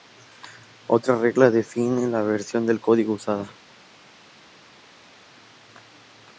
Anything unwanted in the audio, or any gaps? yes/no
no